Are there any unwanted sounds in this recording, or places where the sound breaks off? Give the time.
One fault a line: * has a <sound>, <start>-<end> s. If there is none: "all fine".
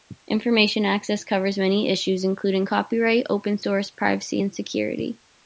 all fine